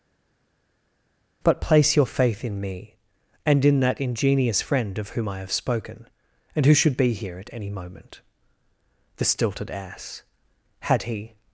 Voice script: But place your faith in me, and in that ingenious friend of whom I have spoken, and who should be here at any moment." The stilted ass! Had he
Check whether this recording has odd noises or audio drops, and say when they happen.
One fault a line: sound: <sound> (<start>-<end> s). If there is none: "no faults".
no faults